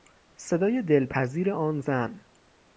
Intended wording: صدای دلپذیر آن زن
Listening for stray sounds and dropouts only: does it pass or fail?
pass